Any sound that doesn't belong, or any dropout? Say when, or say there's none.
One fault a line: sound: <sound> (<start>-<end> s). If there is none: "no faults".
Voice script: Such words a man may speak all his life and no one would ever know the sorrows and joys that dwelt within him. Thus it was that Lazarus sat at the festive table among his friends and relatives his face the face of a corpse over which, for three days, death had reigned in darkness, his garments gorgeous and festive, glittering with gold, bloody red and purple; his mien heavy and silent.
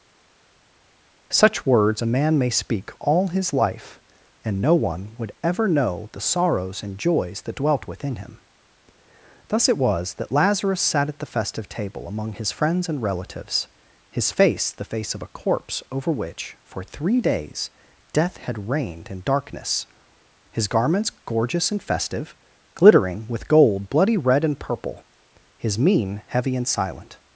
no faults